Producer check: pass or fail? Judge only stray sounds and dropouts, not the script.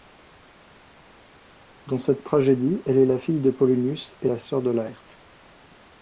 pass